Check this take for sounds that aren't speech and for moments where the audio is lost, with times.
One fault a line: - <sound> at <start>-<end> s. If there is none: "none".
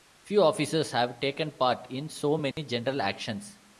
- dropout at 2.5-2.6 s